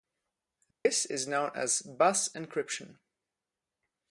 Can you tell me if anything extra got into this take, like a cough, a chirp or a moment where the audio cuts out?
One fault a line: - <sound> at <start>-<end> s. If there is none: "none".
- dropout at 0.7-0.9 s